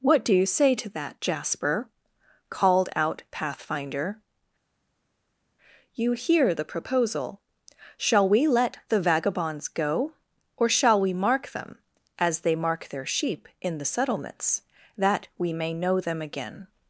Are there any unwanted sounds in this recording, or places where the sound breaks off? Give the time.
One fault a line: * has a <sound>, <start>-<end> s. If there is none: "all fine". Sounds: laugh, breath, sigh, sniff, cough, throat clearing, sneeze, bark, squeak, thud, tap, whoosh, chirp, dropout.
all fine